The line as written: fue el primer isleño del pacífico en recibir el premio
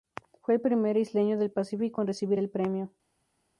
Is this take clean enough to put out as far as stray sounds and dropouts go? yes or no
yes